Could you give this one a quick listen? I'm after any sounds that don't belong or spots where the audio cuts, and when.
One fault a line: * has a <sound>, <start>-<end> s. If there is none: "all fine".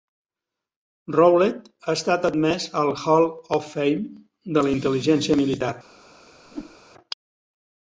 * has a whoosh, 6.5-6.8 s